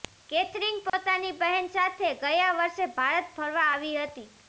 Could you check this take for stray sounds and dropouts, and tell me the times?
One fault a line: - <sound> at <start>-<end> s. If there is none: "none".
- dropout at 0.9-0.9 s